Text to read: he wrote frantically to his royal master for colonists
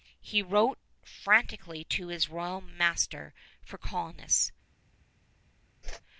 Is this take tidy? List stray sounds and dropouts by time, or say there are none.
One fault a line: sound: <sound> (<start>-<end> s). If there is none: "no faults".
sound: whoosh (5.8-6.0 s)